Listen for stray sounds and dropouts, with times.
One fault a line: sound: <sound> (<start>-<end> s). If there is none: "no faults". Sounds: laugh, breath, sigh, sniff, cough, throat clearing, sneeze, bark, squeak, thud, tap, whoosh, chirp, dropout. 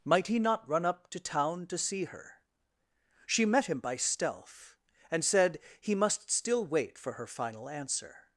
no faults